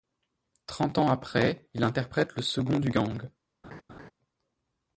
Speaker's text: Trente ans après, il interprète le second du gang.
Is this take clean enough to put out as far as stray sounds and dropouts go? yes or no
no